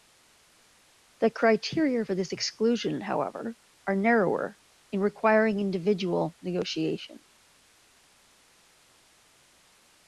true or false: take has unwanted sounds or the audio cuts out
false